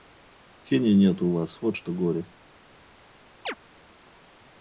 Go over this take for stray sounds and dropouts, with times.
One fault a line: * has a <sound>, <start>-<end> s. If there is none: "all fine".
* has a chirp, 3.5-3.5 s